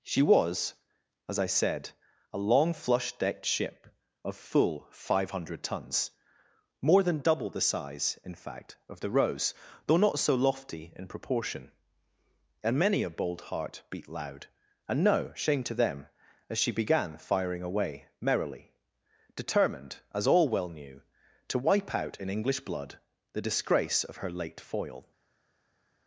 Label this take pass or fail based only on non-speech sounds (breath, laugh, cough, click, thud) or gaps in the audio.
pass